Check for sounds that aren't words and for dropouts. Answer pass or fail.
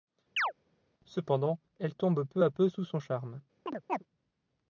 fail